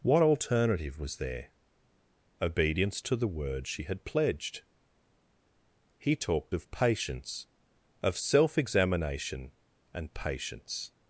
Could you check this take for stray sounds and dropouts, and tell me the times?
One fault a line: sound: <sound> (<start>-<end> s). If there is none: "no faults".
no faults